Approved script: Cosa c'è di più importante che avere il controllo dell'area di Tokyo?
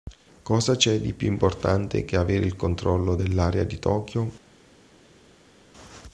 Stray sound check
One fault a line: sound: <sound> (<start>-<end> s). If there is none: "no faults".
no faults